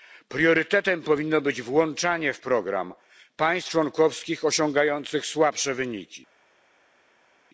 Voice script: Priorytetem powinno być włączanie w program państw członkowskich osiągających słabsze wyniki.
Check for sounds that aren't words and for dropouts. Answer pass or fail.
pass